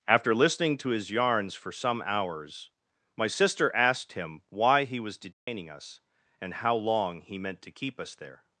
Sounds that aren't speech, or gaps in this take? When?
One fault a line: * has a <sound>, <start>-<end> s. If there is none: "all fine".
* has a dropout, 5.3-5.5 s